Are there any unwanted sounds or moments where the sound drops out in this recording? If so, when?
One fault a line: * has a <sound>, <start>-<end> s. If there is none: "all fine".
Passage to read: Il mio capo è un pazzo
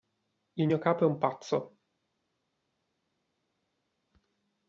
all fine